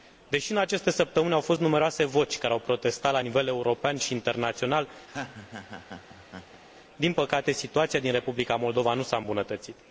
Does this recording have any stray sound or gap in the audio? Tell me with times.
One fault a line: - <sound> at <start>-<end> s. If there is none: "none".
- laugh at 5.1-6.6 s